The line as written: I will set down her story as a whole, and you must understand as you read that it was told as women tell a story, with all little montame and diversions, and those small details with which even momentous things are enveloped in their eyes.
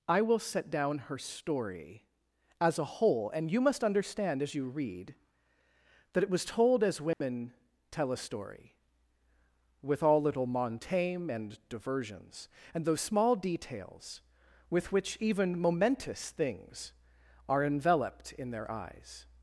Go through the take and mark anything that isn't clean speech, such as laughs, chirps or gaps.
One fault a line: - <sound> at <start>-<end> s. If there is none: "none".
- dropout at 7.1-7.2 s